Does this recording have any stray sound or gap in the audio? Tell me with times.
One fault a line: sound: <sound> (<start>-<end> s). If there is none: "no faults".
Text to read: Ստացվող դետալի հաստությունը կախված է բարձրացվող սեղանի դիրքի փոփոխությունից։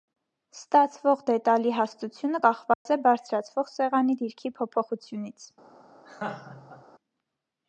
sound: dropout (2.7-2.9 s)
sound: laugh (6.0-6.8 s)